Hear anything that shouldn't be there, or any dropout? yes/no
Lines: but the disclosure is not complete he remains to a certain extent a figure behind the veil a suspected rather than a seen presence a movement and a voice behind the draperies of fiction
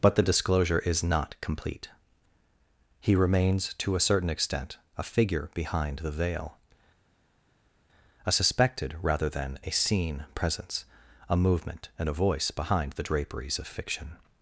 no